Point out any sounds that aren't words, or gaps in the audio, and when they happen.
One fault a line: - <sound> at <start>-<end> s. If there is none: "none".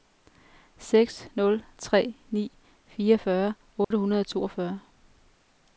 - dropout at 3.8-3.9 s